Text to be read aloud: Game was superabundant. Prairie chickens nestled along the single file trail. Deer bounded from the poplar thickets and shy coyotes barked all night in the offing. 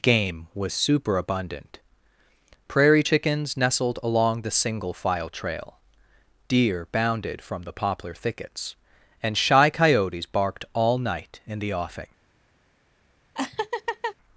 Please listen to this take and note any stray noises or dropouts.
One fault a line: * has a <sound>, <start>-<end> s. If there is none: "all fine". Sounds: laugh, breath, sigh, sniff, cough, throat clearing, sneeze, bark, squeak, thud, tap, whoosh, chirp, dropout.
* has a laugh, 13.3-14.1 s